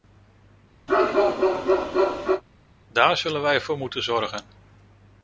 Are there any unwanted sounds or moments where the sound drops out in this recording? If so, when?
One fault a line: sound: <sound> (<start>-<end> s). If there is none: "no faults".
sound: bark (0.9-2.4 s)